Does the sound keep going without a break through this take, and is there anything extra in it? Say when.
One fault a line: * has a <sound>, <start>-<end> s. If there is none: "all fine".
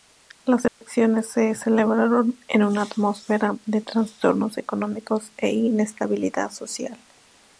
* has a dropout, 0.7-0.8 s